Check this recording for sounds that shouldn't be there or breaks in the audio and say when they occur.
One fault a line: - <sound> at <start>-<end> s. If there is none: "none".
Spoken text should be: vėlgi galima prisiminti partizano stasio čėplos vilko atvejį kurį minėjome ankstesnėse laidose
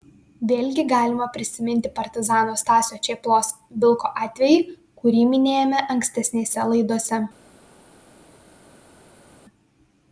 none